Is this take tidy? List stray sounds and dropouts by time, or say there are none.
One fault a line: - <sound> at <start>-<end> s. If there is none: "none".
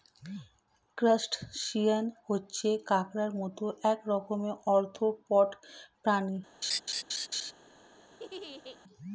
- laugh at 6.6-7.5 s
- laugh at 8.1-8.8 s